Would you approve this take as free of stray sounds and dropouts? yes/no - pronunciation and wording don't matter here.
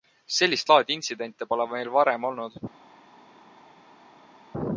yes